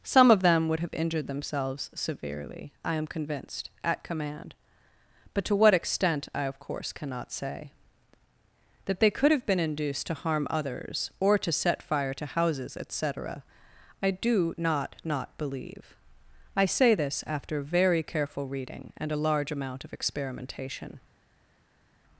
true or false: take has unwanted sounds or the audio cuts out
false